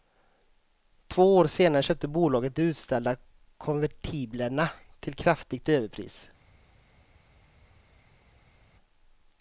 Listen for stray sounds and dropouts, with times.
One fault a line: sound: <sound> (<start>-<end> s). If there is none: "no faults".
no faults